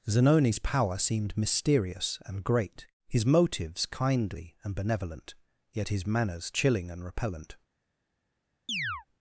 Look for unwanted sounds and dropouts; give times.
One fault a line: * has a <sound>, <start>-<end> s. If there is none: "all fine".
* has a chirp, 8.7-9.1 s